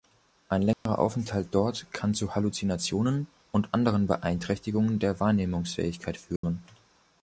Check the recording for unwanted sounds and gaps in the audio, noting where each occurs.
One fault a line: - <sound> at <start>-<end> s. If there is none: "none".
- dropout at 0.7-0.9 s
- dropout at 6.4-6.4 s